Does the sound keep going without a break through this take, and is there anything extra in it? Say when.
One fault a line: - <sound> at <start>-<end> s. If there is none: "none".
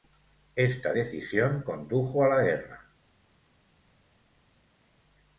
none